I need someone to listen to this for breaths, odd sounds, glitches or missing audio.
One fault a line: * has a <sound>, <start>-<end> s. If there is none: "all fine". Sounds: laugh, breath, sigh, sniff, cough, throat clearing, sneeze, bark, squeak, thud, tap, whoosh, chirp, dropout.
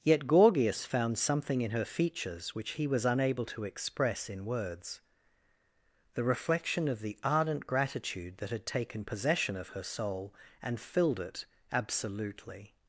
all fine